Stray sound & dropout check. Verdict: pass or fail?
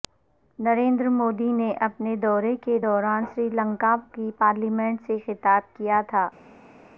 pass